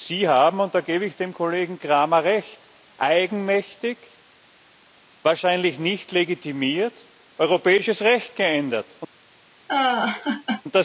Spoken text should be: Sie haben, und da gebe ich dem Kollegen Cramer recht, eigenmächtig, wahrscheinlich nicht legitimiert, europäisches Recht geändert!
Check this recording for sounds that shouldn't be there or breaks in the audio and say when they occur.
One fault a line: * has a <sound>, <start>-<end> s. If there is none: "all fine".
* has a laugh, 9.7-10.6 s